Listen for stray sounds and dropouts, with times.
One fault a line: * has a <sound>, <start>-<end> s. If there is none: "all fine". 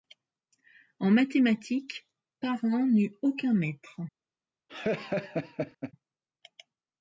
* has a laugh, 4.7-5.9 s